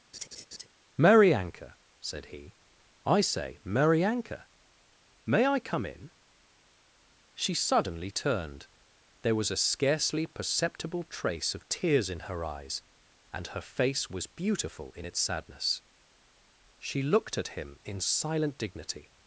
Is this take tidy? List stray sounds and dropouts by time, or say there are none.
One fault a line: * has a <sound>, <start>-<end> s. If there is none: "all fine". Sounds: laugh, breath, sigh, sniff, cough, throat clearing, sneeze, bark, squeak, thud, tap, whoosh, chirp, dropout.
* has a laugh, 0.1-0.7 s